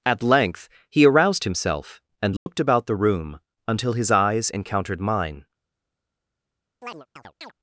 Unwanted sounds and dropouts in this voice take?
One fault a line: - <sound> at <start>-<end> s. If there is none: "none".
- dropout at 2.4-2.5 s
- chirp at 6.8-7.5 s